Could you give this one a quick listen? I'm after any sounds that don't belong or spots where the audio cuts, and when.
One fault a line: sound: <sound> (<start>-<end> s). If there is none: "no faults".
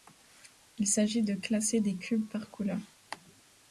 no faults